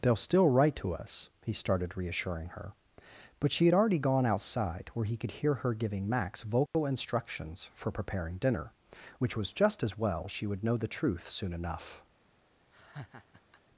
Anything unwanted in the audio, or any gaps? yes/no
yes